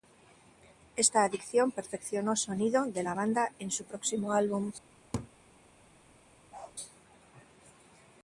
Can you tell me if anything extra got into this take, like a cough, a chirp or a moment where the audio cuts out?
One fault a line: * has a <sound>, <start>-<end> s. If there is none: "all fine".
* has a laugh, 5.1-5.3 s
* has a bark, 6.5-6.8 s